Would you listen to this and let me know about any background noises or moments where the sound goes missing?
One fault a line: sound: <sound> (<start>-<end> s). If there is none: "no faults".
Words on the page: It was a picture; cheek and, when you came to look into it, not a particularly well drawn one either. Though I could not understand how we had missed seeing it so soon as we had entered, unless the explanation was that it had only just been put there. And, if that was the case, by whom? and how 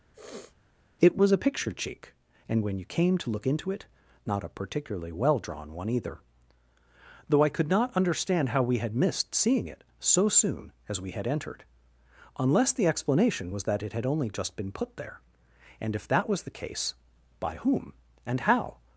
sound: sniff (0.1-0.6 s)